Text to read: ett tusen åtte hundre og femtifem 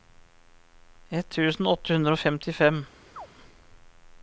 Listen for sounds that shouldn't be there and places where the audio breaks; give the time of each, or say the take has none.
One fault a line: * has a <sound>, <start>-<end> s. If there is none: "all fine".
* has a chirp, 3.2-3.3 s